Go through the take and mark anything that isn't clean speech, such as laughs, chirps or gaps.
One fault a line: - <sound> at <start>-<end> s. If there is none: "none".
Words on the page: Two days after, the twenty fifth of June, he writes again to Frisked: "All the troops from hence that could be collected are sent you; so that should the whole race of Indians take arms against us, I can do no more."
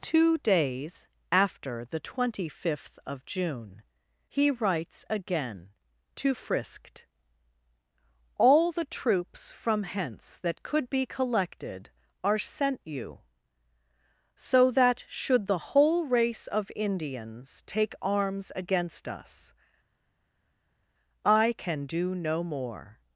none